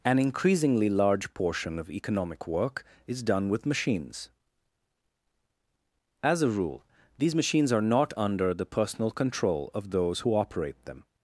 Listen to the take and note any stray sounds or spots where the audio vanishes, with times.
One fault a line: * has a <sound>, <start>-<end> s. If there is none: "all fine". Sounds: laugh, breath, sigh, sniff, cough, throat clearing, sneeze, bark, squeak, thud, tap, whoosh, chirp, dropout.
all fine